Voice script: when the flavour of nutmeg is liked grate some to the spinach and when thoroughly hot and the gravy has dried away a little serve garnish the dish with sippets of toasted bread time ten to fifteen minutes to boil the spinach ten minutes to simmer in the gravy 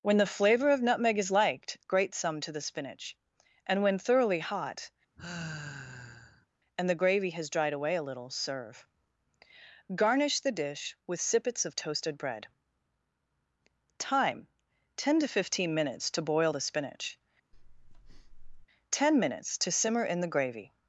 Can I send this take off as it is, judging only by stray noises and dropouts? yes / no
no